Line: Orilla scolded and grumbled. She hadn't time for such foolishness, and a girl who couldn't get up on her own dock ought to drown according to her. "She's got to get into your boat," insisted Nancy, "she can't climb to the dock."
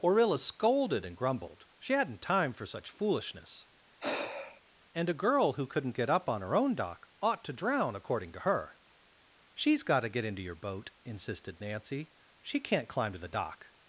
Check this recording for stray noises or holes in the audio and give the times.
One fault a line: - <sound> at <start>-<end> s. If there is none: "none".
- sigh at 4.0-4.6 s